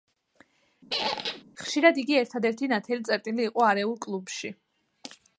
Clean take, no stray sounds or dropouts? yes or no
no